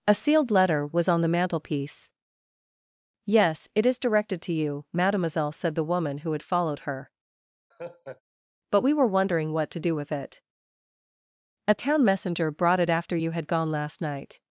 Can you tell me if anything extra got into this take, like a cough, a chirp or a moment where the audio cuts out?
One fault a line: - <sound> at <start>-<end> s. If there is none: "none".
- laugh at 7.7-8.2 s